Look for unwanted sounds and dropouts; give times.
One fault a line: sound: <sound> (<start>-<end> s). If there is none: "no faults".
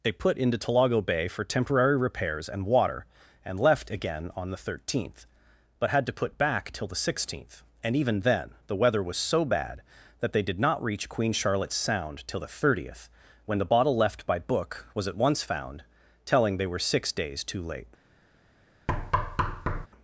sound: thud (18.9-19.9 s)